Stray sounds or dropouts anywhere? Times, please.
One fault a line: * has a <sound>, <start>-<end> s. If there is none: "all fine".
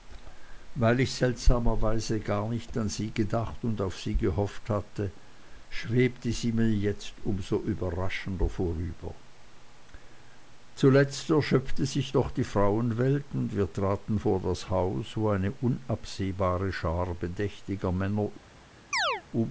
* has a chirp, 18.9-19.2 s